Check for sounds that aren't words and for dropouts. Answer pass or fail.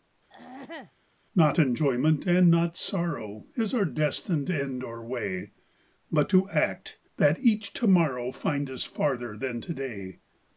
fail